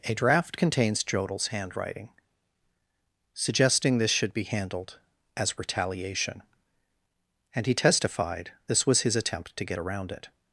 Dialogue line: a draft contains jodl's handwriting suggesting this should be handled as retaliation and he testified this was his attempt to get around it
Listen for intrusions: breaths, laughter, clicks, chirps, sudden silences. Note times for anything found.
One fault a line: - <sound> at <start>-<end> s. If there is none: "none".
none